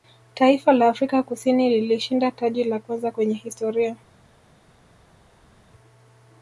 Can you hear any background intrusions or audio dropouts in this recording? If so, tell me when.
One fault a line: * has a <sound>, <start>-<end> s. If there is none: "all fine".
all fine